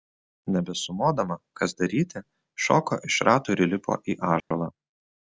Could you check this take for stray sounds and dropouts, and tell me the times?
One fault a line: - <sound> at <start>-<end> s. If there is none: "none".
- dropout at 4.4-4.5 s